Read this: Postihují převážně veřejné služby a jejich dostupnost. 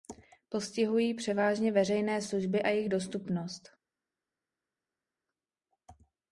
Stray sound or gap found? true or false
false